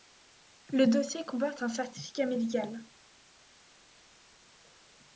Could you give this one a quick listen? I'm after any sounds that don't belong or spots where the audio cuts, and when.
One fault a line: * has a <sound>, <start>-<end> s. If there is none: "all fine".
all fine